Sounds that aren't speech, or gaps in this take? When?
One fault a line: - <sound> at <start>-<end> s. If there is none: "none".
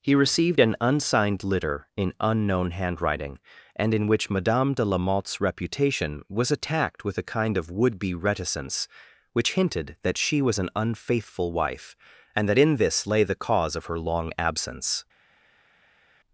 none